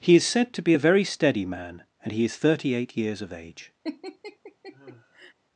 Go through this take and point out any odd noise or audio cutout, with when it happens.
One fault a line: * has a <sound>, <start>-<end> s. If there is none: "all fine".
* has a laugh, 3.8-5.3 s